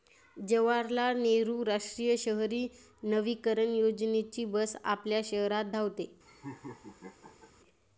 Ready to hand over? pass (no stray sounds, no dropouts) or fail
fail